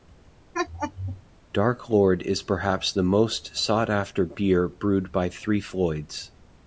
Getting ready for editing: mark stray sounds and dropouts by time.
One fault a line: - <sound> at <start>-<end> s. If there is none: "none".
- laugh at 0.5-1.2 s